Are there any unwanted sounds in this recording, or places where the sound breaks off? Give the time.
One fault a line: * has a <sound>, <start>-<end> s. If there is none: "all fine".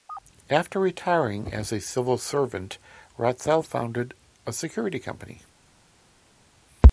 all fine